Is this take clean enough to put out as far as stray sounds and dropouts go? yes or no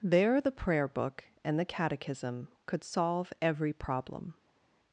yes